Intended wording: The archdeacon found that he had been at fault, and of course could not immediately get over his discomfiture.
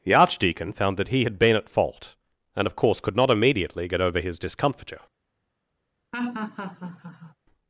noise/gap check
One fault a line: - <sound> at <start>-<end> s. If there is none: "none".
- laugh at 6.1-7.4 s